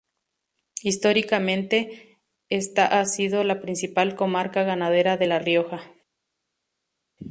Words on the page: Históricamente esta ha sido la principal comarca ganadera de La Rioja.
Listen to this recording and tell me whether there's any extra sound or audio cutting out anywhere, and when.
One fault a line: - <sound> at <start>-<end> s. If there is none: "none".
none